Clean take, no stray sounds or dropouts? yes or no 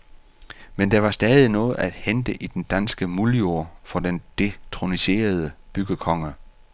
yes